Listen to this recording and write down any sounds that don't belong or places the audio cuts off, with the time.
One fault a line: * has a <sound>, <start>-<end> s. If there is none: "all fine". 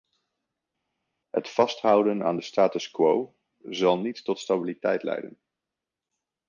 all fine